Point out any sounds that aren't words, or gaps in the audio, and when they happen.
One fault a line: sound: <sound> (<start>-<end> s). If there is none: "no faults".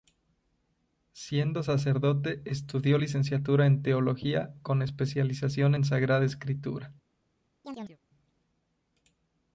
sound: chirp (7.6-8.0 s)